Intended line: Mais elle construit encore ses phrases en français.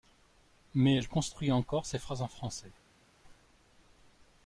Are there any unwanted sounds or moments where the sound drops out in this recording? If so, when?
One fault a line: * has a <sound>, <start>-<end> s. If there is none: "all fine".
all fine